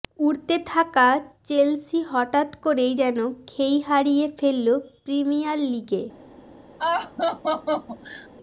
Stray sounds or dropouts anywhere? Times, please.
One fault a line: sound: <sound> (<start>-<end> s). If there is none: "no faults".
sound: laugh (6.8-8.3 s)